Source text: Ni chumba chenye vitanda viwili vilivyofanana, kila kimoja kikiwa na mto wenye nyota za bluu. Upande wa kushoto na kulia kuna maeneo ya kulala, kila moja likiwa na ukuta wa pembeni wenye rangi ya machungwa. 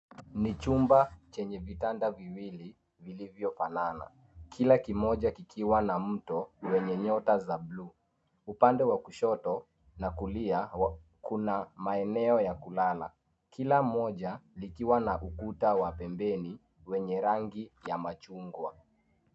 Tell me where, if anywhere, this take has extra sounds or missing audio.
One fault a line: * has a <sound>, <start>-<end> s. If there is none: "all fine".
all fine